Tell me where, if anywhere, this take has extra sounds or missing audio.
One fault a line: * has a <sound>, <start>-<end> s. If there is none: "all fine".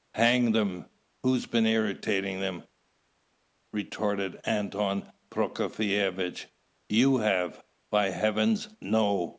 all fine